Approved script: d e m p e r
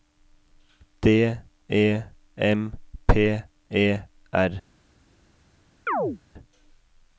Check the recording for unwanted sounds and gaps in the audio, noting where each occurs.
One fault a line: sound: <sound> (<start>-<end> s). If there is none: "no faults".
sound: chirp (5.9-6.2 s)